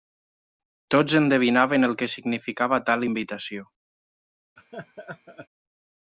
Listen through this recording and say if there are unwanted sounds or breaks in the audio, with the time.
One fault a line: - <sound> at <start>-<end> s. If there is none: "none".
- laugh at 4.6-5.5 s